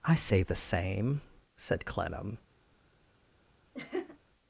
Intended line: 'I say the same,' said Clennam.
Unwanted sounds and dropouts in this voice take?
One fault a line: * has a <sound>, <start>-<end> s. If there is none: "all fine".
* has a laugh, 3.7-4.2 s